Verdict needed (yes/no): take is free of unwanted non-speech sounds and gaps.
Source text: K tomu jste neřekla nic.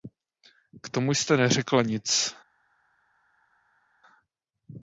yes